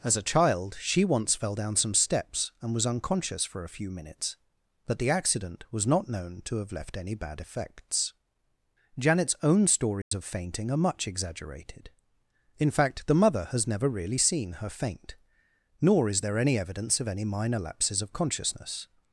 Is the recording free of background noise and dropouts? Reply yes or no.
no